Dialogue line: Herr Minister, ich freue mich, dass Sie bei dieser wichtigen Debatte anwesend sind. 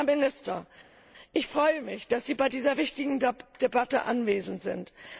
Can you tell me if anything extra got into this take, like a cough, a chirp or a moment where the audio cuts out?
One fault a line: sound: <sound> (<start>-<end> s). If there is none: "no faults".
no faults